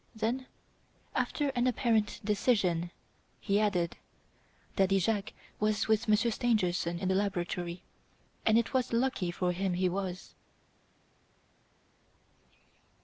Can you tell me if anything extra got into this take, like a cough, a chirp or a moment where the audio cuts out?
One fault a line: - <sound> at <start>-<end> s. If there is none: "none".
none